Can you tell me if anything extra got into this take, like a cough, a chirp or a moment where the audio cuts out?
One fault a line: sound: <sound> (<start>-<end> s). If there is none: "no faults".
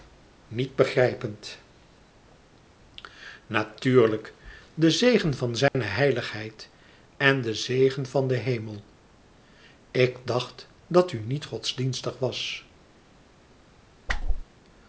sound: dropout (5.7-5.7 s)
sound: whoosh (14.1-14.4 s)